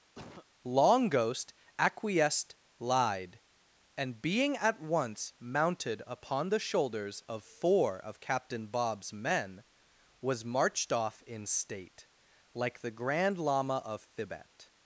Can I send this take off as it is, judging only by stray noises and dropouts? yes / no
no